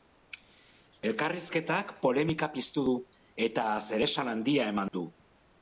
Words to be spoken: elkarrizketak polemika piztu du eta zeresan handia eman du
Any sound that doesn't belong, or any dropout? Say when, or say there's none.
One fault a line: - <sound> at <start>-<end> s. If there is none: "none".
- dropout at 4.9-4.9 s